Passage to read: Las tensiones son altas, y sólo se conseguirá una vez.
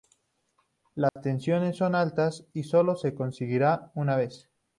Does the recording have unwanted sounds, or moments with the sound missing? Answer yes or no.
yes